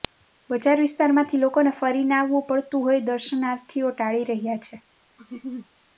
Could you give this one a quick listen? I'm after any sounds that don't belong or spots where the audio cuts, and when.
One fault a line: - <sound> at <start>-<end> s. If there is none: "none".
- laugh at 5.2-5.7 s